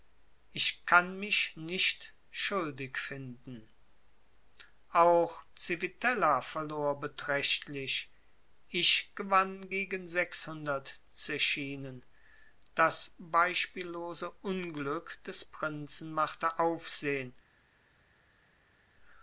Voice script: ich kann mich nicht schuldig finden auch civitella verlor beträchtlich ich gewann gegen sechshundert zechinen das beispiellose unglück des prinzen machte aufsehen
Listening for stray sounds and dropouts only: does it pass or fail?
pass